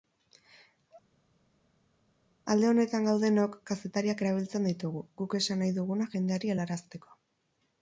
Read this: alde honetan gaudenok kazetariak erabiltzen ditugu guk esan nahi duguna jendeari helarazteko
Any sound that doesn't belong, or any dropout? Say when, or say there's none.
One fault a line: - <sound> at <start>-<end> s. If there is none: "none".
none